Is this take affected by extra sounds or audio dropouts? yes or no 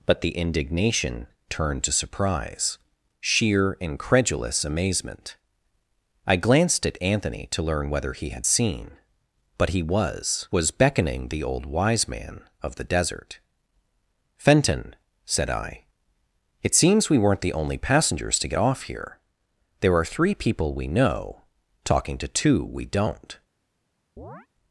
yes